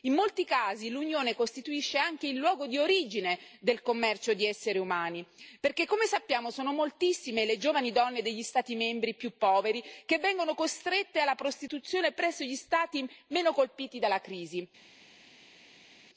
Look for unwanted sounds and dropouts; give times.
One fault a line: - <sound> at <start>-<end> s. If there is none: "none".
none